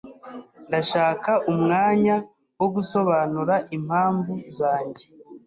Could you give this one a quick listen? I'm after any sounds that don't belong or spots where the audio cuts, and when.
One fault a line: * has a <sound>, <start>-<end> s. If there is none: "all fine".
all fine